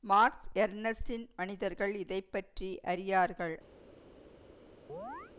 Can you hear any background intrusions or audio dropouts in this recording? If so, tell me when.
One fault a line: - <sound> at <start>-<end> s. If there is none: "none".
- chirp at 4.9-5.3 s